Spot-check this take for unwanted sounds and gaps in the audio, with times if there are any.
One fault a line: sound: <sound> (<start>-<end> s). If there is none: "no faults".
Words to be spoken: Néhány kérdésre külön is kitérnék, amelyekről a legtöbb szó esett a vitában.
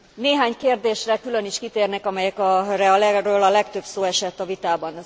no faults